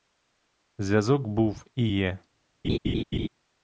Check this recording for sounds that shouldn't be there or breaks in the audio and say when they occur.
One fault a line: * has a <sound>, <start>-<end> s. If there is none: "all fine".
* has a laugh, 2.6-3.3 s